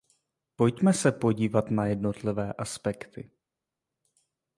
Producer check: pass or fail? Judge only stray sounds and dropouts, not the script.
pass